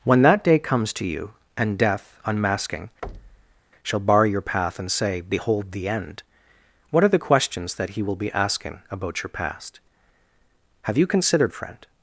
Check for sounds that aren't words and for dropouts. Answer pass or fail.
fail